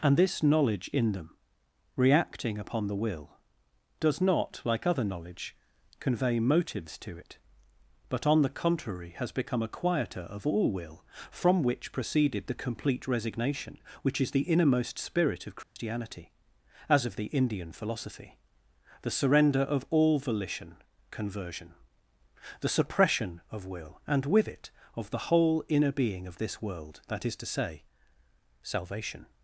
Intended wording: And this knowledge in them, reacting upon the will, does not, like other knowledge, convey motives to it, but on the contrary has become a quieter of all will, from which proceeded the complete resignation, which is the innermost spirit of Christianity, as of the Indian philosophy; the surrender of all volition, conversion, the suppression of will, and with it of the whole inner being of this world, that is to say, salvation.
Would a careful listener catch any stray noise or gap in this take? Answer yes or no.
yes